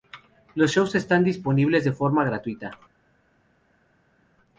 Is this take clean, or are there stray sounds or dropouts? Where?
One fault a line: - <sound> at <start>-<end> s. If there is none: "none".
none